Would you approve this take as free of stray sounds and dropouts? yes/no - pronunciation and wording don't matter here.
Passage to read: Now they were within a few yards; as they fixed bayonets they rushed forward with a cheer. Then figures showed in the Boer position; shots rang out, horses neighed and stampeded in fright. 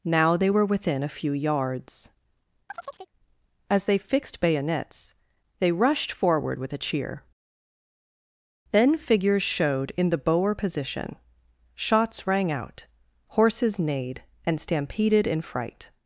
no